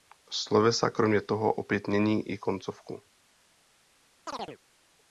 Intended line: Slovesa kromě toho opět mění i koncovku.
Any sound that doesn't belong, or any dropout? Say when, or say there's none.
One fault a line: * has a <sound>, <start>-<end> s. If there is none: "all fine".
* has a chirp, 4.3-4.6 s